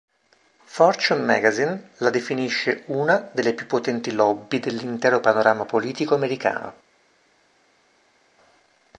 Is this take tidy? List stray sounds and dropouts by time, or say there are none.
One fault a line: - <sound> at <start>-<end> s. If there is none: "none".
none